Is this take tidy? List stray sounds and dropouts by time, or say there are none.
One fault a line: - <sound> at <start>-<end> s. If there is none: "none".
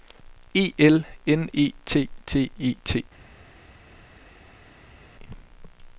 none